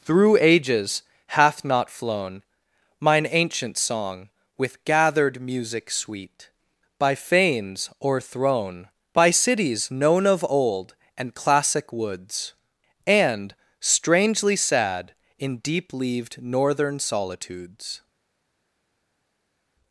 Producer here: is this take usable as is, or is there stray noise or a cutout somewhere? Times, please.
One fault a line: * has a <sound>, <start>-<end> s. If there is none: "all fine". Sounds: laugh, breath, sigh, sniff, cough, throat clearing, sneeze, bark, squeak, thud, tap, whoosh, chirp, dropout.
all fine